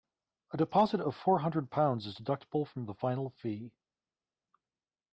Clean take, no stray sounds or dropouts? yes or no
yes